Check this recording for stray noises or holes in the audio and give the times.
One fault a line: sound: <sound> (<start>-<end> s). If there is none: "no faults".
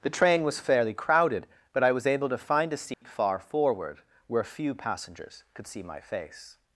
sound: dropout (2.9-3.0 s)